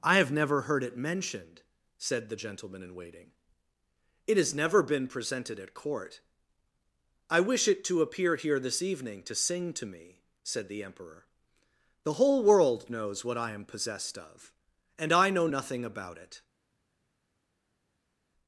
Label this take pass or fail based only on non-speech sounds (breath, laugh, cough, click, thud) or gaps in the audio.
pass